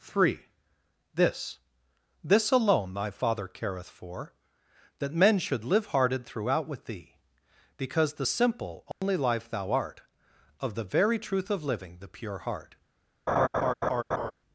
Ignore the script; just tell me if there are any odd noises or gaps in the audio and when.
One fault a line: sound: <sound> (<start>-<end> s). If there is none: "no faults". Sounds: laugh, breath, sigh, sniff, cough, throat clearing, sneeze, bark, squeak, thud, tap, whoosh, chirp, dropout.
sound: dropout (8.9-9.0 s)
sound: laugh (13.3-14.3 s)